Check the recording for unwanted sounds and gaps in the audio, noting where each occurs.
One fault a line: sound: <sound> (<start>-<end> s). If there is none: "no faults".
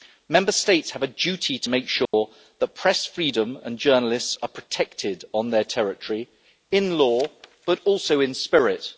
sound: dropout (2.1-2.1 s)